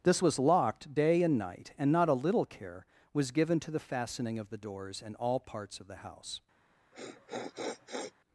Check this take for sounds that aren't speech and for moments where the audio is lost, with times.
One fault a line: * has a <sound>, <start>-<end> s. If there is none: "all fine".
* has a sniff, 6.9-8.1 s